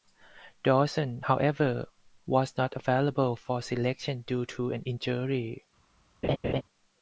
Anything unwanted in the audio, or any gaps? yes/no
yes